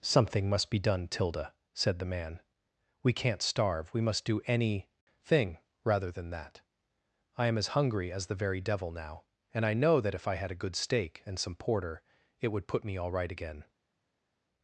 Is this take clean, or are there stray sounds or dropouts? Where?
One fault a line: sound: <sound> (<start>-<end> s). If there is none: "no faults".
no faults